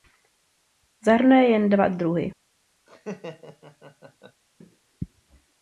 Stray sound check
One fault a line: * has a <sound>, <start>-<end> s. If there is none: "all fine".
* has a laugh, 2.9-4.4 s